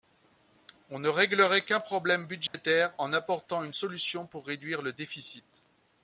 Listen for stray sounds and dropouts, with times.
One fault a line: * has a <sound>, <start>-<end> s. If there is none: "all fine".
* has a dropout, 2.5-2.5 s